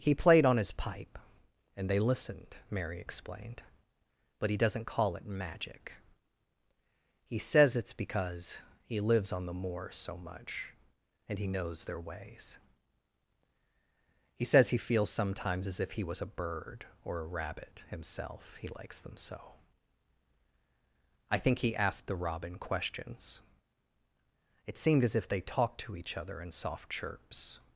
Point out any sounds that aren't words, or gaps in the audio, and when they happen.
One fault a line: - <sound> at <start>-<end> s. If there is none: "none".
none